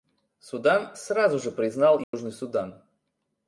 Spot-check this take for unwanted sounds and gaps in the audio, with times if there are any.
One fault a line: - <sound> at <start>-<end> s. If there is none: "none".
- dropout at 2.0-2.1 s